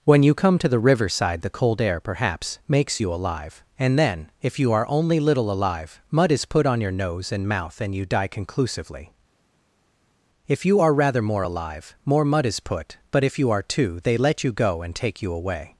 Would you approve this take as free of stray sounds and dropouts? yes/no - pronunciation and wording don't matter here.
yes